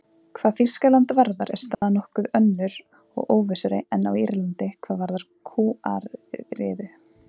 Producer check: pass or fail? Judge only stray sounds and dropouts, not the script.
fail